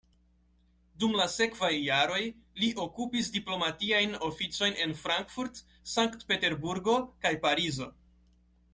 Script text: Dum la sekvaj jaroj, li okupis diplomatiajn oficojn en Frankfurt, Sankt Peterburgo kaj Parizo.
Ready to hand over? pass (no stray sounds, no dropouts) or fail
pass